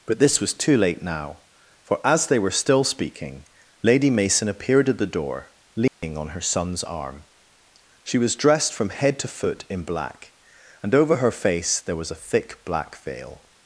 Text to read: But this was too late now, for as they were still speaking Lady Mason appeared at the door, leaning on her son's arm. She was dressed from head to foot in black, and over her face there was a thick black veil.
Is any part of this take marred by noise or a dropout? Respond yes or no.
yes